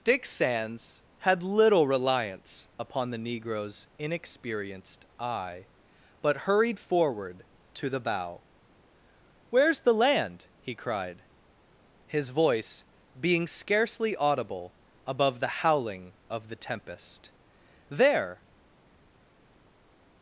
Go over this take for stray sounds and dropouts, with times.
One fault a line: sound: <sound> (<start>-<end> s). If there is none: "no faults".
no faults